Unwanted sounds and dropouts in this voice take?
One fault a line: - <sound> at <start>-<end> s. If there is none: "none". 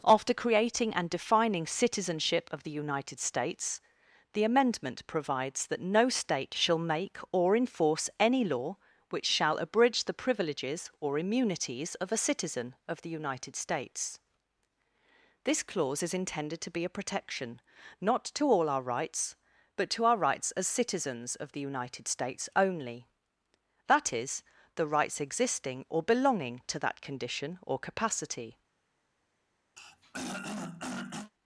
- throat clearing at 29.8-31.3 s